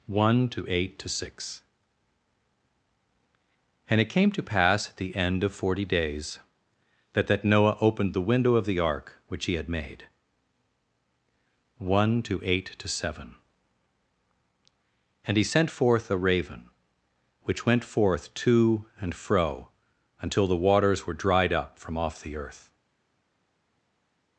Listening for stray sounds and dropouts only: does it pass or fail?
pass